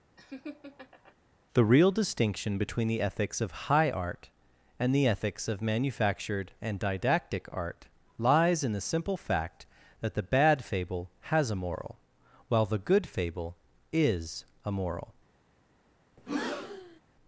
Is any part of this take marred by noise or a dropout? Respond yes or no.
yes